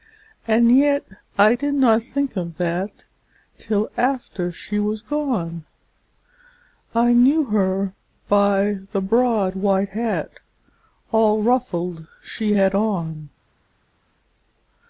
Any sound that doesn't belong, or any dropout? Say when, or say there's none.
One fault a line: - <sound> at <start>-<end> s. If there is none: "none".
none